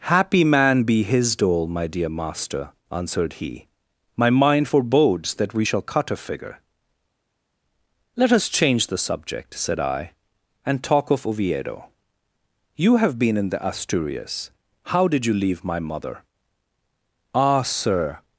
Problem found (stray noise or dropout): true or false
false